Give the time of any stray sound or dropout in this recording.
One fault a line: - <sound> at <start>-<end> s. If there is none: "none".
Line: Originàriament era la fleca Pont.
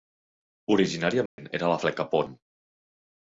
- dropout at 1.3-1.4 s